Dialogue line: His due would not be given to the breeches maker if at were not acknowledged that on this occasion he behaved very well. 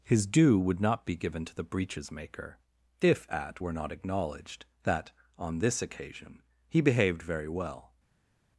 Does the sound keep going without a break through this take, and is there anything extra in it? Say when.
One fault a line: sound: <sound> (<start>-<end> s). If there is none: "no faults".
no faults